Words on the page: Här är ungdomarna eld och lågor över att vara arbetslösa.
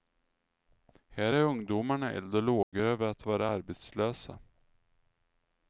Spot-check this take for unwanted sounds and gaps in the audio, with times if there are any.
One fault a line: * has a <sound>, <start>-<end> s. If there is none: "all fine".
* has a dropout, 2.6-2.7 s